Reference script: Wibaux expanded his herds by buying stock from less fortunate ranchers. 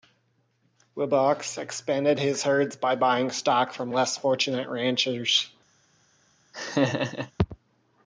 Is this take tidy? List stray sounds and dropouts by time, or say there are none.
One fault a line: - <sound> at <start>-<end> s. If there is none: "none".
- laugh at 6.5-7.3 s